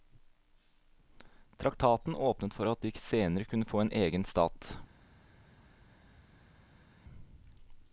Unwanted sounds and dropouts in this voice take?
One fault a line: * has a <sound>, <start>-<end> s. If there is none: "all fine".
all fine